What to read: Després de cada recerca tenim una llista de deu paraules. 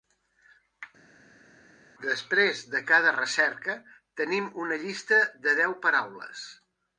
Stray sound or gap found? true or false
false